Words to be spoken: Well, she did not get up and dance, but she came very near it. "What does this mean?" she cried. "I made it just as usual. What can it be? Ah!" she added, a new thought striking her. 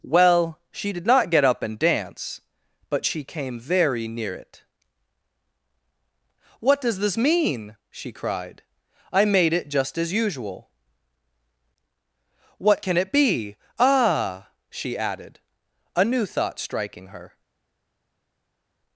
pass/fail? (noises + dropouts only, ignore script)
pass